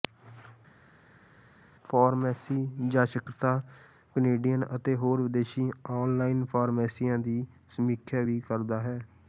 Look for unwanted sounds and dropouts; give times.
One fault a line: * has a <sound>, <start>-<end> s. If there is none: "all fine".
all fine